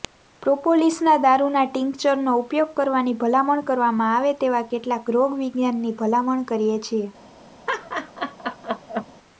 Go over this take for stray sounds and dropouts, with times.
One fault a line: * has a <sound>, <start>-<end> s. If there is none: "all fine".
* has a laugh, 7.7-9.1 s